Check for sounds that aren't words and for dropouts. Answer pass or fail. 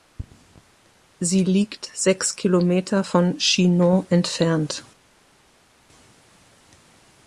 pass